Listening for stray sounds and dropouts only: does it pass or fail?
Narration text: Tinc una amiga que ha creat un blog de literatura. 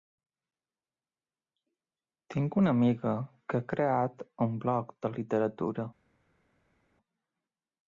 pass